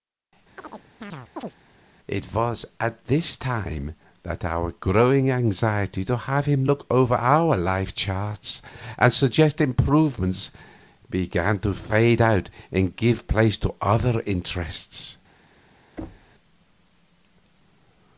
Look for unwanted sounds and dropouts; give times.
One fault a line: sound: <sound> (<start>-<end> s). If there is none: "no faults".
sound: chirp (0.6-1.6 s)
sound: thud (16.0-16.3 s)